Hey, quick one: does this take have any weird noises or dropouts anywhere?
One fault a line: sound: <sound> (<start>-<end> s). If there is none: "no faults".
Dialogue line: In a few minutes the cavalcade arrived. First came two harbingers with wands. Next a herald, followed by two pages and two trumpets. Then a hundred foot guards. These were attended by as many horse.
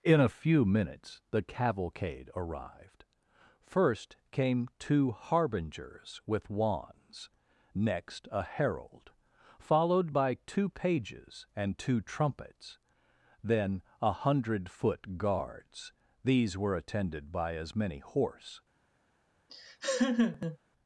sound: laugh (19.5-20.6 s)